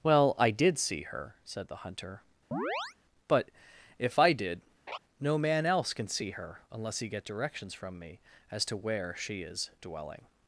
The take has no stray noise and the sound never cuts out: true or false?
false